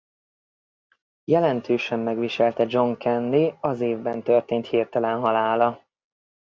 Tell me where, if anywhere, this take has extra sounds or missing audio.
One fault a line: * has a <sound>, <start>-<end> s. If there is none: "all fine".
all fine